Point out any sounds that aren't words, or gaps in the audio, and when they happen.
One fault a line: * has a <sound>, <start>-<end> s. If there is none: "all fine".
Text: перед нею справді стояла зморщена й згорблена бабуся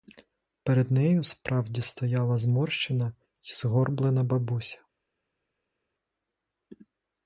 all fine